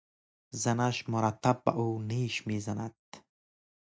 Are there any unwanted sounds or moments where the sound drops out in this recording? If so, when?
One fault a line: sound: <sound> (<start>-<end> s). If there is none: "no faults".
no faults